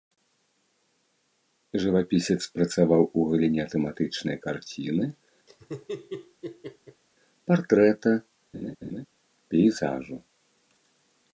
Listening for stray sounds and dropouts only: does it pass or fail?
fail